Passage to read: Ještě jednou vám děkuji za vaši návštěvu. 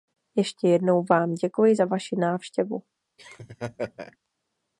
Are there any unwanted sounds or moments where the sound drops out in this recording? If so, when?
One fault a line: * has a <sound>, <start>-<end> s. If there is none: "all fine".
* has a laugh, 3.2-4.2 s